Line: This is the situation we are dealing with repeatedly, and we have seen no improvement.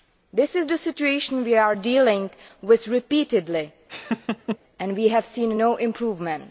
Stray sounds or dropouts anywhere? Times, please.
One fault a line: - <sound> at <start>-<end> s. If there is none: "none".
- laugh at 3.9-4.6 s